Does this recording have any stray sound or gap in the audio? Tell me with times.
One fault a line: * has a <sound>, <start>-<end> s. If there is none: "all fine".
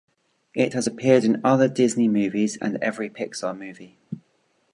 all fine